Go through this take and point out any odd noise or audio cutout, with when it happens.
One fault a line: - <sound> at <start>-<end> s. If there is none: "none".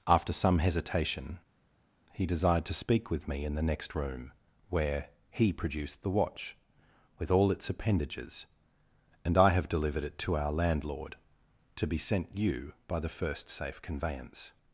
none